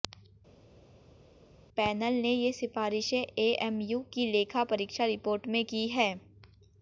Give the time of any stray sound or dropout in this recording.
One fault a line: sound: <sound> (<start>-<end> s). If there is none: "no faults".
no faults